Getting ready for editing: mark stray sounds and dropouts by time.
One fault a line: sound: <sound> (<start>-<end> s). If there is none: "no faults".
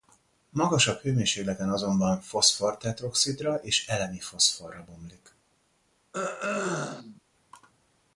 sound: throat clearing (6.1-7.2 s)